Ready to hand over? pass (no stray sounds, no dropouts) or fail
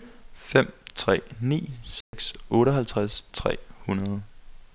fail